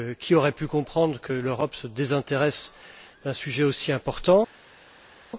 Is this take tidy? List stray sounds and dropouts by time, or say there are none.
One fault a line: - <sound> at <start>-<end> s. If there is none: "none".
none